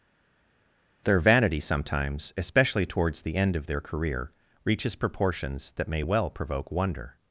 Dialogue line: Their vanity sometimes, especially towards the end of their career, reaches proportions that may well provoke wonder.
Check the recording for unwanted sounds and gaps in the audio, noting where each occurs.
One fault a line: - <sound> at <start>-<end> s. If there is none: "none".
none